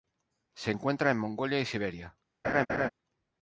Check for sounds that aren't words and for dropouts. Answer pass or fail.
fail